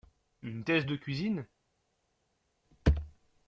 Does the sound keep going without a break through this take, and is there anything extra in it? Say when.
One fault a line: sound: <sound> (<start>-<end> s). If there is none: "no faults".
no faults